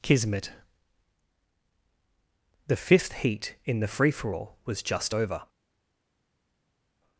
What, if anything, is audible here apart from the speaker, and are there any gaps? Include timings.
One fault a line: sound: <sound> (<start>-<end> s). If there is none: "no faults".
no faults